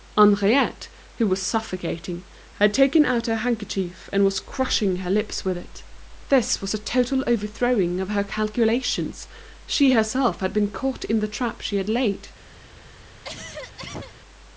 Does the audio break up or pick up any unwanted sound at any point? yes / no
yes